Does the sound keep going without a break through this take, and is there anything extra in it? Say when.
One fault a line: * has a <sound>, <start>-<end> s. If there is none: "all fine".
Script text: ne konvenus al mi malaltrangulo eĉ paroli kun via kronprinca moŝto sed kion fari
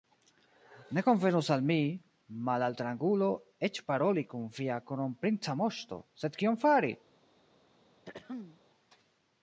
* has a throat clearing, 8.1-8.6 s